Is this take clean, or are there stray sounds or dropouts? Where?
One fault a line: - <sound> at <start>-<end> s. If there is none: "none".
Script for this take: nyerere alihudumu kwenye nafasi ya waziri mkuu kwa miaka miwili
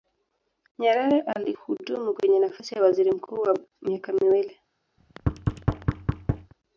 - thud at 5.0-6.5 s